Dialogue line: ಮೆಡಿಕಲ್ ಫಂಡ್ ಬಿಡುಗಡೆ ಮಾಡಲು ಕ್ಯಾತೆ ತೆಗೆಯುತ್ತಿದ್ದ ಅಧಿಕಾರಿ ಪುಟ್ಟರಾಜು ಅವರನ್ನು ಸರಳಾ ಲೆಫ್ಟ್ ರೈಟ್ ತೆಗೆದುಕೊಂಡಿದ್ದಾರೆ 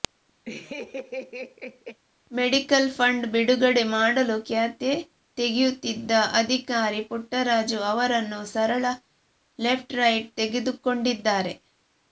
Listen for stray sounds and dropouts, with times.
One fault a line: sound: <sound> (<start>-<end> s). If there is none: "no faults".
sound: laugh (0.5-2.0 s)